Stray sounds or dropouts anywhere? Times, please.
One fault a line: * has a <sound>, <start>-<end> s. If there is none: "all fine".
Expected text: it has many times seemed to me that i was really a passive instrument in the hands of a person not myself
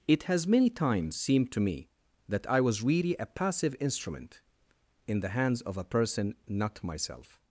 all fine